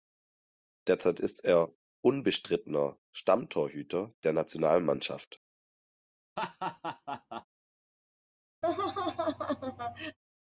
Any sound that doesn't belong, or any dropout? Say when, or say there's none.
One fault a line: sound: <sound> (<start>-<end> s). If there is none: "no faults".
sound: laugh (6.4-7.5 s)
sound: laugh (8.6-10.2 s)